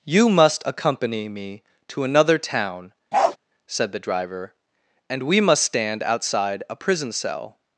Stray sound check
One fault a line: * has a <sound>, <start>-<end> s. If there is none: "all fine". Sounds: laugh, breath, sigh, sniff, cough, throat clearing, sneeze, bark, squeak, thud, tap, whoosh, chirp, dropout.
* has a bark, 3.1-3.4 s